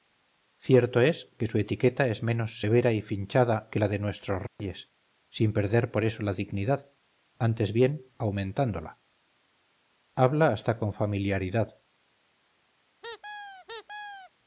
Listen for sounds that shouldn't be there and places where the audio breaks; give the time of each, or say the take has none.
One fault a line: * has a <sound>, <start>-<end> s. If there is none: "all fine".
* has a dropout, 4.5-4.6 s
* has a squeak, 13.0-14.3 s